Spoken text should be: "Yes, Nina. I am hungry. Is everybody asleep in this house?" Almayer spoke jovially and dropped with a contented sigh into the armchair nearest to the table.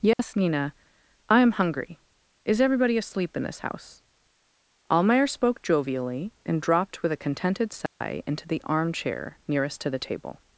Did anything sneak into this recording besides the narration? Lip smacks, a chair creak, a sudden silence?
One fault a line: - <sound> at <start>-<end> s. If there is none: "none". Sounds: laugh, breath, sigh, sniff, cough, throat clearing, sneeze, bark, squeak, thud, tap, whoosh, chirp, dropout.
- dropout at 0.1-0.2 s
- dropout at 7.9-8.0 s